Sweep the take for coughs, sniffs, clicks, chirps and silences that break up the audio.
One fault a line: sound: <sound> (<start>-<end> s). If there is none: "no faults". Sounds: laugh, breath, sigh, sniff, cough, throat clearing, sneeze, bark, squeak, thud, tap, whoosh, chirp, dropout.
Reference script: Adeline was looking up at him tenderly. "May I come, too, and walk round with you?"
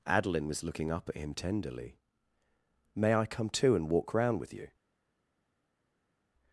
no faults